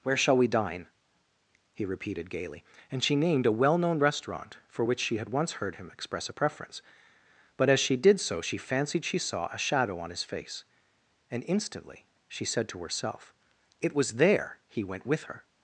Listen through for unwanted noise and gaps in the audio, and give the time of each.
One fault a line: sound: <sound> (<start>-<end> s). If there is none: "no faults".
no faults